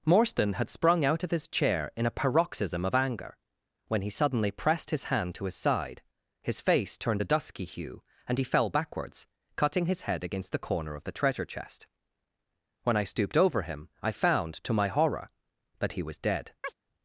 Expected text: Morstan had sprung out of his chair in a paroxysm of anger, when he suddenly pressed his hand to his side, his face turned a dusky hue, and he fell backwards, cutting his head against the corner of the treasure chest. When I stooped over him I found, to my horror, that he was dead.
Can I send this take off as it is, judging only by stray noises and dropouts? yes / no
no